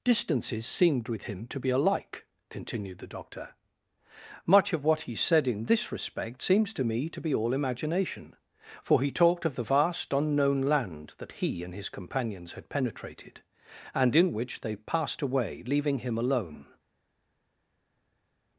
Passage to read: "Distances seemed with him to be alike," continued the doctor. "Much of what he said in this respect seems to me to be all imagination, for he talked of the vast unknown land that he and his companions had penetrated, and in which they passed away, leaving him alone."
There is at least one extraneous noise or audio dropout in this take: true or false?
false